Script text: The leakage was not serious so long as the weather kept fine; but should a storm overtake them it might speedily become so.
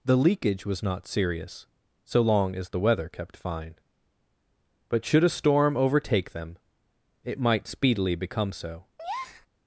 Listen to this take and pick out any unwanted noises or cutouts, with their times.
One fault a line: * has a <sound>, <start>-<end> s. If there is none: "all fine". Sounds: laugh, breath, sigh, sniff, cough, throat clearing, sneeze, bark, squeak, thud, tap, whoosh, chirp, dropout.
* has a breath, 9.0-9.5 s